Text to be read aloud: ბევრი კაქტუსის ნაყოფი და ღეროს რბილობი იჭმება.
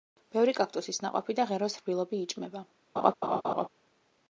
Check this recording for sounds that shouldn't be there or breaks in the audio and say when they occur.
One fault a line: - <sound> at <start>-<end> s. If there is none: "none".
- laugh at 3.0-3.7 s